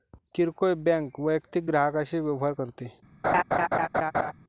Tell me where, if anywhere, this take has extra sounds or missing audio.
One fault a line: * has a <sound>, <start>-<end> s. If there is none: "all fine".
* has a laugh, 3.2-4.3 s